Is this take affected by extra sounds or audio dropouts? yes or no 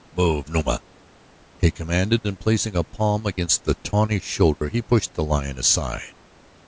yes